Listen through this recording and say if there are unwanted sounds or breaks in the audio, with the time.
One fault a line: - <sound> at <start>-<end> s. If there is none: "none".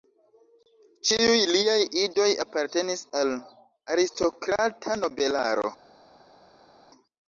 none